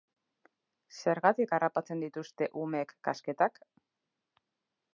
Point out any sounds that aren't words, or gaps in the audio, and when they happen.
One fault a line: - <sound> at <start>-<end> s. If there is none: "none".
none